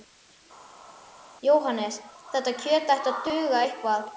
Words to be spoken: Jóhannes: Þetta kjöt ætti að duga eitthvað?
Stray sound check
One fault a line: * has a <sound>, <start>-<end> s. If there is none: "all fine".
all fine